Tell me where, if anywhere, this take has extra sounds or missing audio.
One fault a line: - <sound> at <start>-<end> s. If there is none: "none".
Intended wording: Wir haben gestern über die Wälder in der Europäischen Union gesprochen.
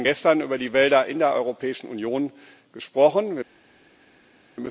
none